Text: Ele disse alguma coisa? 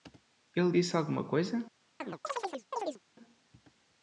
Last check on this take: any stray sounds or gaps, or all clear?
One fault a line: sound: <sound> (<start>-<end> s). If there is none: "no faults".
sound: chirp (2.0-3.0 s)